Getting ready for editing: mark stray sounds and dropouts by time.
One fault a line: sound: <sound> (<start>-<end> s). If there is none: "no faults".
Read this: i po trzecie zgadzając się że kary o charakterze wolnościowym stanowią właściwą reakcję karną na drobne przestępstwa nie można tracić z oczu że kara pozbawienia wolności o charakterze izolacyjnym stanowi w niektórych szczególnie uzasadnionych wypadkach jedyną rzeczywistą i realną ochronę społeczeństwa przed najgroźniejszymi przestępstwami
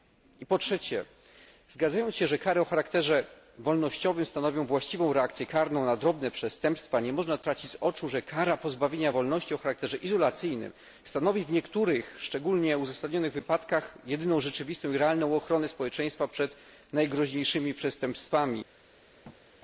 sound: thud (19.2-19.4 s)